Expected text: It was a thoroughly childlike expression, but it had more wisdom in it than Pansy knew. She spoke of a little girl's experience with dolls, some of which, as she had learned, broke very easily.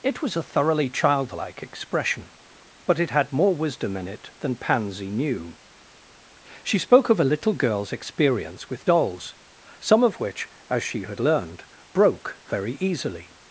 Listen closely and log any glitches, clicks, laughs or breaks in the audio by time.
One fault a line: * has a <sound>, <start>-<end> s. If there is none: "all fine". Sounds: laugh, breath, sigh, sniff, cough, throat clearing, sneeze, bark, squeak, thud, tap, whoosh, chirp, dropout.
all fine